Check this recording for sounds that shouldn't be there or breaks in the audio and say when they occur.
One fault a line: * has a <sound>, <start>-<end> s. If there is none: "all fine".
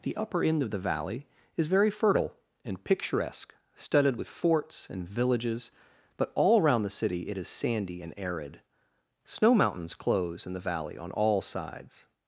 all fine